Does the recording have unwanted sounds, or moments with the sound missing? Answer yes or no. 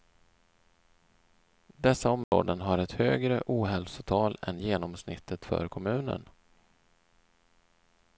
yes